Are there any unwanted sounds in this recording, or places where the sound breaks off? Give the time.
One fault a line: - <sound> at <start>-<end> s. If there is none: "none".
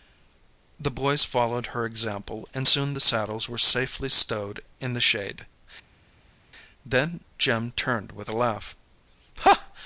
none